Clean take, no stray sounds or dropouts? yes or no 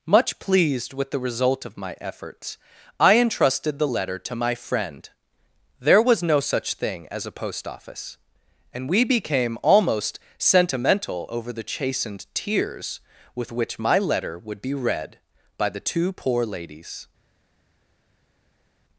yes